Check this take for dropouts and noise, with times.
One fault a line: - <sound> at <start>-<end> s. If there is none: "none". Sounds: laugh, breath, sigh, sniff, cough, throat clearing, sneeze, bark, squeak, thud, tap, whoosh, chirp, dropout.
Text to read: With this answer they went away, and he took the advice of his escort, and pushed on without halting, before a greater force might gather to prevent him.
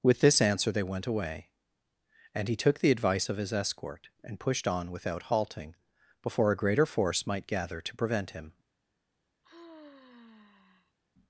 - sigh at 9.4-11.0 s